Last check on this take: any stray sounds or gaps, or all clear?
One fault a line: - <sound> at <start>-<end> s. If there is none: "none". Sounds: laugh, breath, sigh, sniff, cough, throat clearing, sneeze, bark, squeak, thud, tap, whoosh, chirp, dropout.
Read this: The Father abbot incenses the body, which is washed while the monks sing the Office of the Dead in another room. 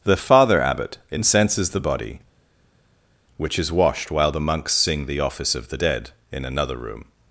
none